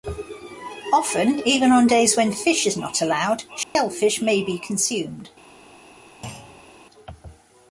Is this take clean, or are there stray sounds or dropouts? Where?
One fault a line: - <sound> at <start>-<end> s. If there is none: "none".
- dropout at 3.6-3.8 s
- thud at 6.2-6.8 s